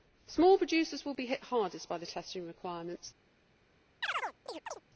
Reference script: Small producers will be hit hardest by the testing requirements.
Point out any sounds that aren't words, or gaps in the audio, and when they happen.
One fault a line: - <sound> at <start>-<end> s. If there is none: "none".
- chirp at 4.0-4.8 s